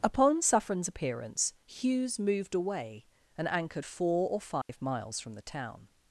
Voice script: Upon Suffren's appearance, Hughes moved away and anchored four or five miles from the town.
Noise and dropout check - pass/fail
fail